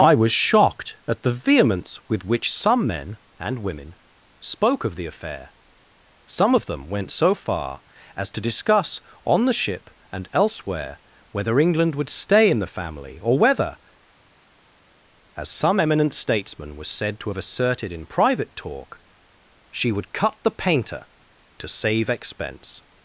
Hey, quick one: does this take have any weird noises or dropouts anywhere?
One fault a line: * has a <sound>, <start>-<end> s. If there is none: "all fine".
all fine